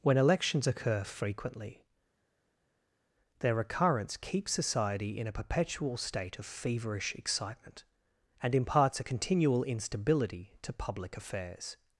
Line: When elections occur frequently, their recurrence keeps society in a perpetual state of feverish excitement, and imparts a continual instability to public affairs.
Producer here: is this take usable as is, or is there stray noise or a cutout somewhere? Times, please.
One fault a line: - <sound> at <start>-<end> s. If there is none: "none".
none